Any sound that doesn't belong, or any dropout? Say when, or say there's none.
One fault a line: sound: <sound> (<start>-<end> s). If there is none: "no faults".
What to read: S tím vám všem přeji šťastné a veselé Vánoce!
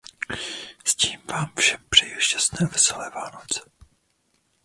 no faults